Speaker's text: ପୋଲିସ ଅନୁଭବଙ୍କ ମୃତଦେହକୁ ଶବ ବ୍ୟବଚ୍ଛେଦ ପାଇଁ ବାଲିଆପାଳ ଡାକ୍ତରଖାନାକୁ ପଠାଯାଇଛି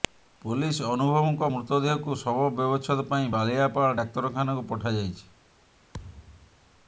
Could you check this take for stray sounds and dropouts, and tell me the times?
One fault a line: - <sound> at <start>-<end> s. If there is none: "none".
- thud at 5.9-6.6 s